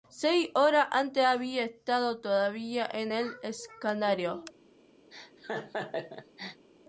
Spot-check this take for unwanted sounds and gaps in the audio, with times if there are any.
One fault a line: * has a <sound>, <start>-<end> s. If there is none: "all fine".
* has a laugh, 5.1-6.7 s